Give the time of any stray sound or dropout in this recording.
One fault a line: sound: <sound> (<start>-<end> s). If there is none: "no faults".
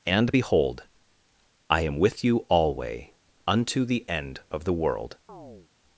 sound: chirp (5.3-5.7 s)